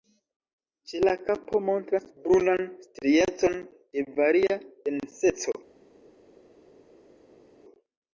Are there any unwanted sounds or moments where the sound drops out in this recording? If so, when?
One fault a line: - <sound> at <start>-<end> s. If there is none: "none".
none